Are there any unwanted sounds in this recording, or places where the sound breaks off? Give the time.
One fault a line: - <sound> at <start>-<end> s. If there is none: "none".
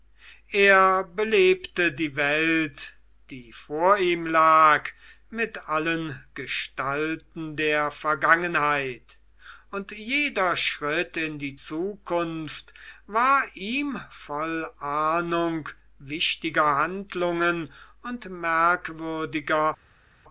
none